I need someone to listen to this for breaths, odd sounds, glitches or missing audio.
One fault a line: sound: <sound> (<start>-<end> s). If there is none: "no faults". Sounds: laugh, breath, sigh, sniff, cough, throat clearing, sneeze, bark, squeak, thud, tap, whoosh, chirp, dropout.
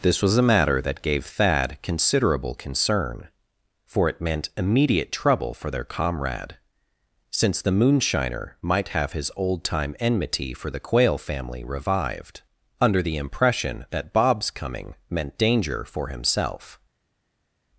no faults